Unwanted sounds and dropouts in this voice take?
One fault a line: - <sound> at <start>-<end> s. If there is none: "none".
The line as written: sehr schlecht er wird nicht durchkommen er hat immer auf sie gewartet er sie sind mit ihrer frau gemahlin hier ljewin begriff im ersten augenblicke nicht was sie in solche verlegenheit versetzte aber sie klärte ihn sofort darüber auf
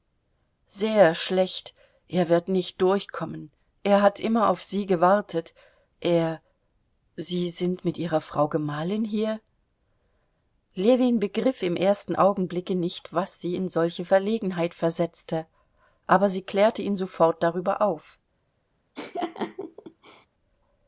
- laugh at 18.9-20.3 s